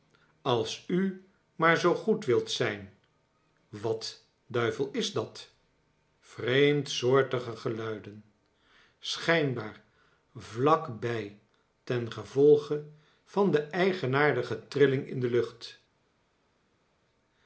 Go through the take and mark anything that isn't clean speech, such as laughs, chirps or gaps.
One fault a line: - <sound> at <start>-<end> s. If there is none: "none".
none